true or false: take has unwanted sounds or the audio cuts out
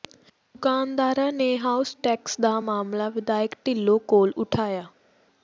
false